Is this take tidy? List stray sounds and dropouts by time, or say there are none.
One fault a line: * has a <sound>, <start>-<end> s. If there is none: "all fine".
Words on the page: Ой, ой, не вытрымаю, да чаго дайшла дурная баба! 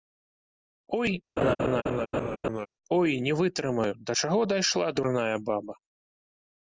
* has a laugh, 1.4-2.7 s